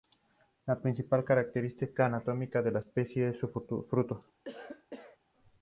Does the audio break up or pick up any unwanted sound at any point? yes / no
yes